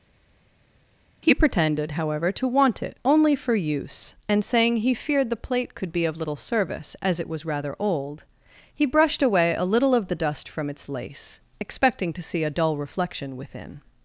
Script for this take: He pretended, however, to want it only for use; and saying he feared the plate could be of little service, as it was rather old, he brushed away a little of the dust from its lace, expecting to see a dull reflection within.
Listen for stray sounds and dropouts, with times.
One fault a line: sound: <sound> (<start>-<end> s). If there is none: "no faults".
no faults